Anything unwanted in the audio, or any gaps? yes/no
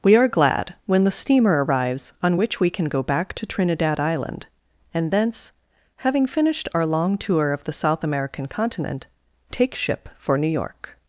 no